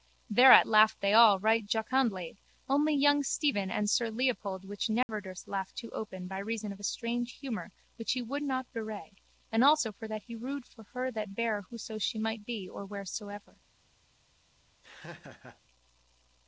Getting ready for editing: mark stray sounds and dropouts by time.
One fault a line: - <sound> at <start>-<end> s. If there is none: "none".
- dropout at 5.0-5.1 s
- laugh at 14.8-15.6 s